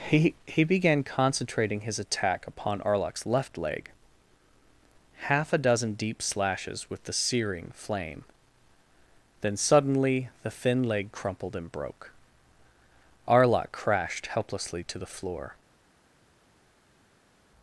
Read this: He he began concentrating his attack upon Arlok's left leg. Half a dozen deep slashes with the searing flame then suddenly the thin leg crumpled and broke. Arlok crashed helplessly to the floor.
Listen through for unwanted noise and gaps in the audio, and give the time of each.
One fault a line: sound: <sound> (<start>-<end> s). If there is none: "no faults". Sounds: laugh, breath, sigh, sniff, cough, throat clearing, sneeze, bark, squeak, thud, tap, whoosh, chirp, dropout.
no faults